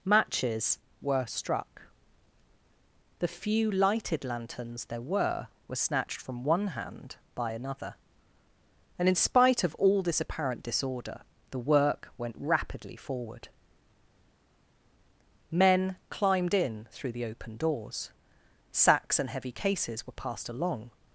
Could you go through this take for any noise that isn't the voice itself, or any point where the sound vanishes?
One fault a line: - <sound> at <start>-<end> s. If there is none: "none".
none